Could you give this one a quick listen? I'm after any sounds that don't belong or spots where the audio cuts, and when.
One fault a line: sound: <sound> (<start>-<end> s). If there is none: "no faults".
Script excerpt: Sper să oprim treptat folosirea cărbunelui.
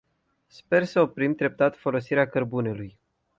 no faults